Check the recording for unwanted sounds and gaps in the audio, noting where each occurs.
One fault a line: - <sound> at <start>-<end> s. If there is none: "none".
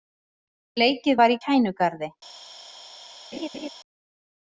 - laugh at 3.3-3.7 s